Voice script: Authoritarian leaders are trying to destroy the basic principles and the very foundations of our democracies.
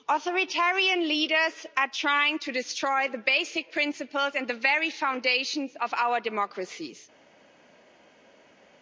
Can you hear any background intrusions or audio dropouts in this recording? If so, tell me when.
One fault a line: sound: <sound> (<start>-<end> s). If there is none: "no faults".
no faults